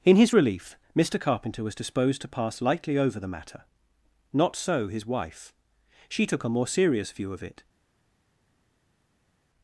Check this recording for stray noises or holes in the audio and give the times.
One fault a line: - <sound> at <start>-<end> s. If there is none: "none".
none